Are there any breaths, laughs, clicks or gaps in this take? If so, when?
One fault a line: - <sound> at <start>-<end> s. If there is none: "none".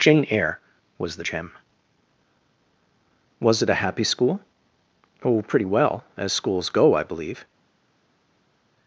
none